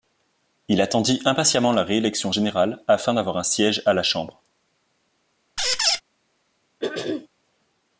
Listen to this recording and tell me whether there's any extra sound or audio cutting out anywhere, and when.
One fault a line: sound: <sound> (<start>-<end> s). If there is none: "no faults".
sound: squeak (5.6-6.0 s)
sound: throat clearing (6.8-7.3 s)